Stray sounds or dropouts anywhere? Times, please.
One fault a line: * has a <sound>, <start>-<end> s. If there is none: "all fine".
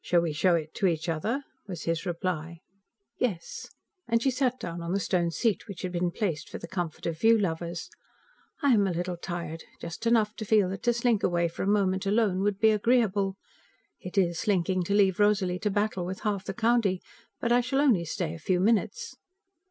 all fine